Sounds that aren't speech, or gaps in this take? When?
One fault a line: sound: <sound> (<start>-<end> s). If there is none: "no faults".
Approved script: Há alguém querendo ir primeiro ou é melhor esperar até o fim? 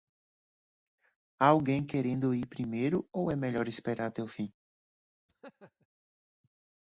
sound: laugh (5.3-5.9 s)